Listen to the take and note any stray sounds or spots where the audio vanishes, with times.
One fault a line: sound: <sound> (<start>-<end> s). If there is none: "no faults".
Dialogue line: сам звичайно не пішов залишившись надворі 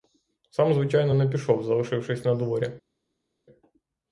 no faults